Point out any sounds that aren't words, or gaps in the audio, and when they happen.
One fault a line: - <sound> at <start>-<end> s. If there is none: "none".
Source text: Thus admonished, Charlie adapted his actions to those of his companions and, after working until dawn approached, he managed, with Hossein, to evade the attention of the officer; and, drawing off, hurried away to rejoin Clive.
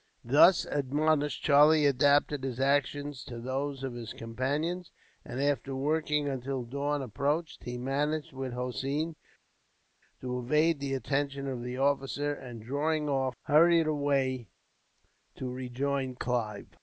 none